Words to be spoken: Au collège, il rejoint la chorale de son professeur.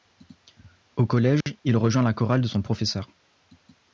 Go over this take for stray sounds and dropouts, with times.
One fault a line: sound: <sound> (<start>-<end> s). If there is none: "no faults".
sound: dropout (1.4-1.5 s)